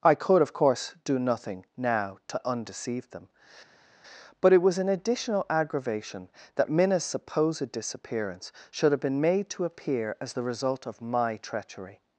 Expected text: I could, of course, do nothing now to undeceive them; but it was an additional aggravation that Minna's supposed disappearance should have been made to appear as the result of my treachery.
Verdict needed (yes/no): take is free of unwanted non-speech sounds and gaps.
yes